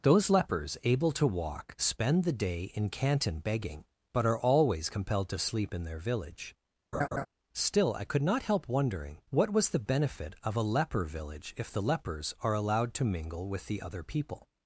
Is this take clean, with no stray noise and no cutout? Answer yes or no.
no